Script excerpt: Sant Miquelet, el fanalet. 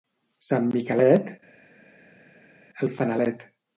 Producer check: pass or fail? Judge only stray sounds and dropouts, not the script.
pass